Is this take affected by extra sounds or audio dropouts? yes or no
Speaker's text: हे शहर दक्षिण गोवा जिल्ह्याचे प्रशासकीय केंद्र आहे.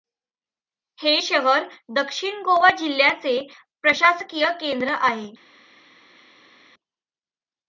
no